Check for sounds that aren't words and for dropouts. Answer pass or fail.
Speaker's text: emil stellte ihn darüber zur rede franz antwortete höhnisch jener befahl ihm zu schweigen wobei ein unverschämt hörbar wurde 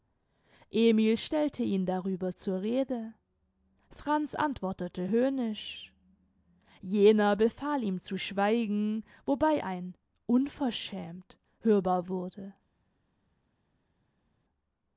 pass